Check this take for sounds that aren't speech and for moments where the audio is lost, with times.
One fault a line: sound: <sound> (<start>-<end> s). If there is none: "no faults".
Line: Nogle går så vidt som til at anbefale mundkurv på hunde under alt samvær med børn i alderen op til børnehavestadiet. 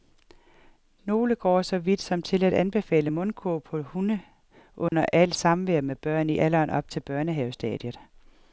sound: dropout (4.9-4.9 s)